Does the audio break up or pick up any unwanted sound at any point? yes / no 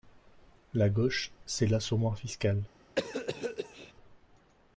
yes